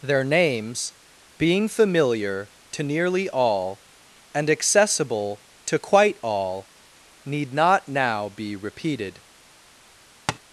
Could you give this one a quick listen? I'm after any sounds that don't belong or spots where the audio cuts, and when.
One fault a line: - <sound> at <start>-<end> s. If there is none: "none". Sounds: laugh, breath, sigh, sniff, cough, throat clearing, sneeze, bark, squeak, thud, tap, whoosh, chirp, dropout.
- tap at 10.3-10.4 s